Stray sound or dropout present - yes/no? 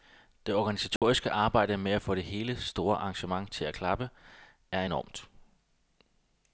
yes